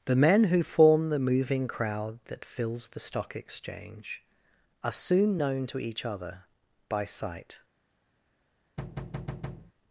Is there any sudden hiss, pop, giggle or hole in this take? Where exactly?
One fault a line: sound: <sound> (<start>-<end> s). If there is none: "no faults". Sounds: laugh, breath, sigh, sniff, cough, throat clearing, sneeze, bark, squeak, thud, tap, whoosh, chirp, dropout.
sound: thud (8.8-9.7 s)